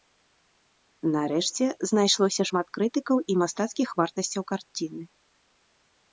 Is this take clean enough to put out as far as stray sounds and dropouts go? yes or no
yes